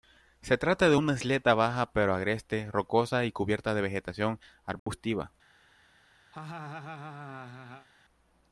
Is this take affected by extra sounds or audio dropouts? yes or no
yes